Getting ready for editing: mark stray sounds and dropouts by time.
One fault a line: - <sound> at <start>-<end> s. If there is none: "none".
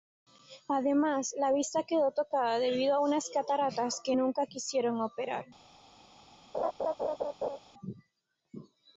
- laugh at 6.5-7.6 s